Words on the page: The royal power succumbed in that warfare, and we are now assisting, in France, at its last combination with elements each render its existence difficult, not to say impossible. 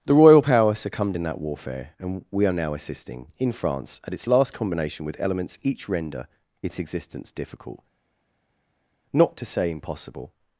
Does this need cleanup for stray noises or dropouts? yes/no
no